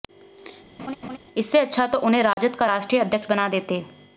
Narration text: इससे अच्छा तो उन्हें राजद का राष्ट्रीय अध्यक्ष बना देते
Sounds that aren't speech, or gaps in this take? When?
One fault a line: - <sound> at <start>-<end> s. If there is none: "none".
- laugh at 0.8-1.2 s
- dropout at 2.3-2.4 s